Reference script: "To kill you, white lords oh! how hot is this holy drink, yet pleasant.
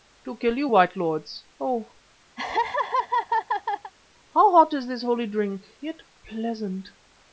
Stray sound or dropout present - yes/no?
yes